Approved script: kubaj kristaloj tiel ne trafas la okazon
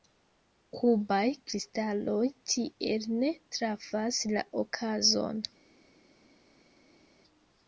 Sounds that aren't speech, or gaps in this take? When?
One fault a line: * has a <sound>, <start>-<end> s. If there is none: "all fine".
all fine